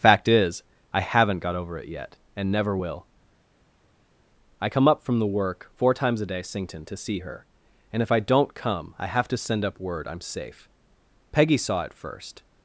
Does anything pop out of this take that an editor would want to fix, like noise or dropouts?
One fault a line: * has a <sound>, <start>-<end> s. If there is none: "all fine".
all fine